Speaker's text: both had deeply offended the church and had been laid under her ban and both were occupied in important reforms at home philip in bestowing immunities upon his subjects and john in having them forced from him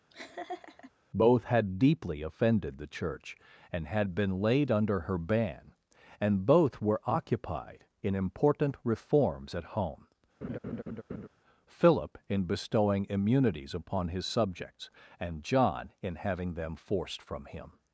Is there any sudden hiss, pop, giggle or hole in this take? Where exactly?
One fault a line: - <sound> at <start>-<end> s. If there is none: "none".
- laugh at 0.1-0.9 s
- laugh at 10.4-11.3 s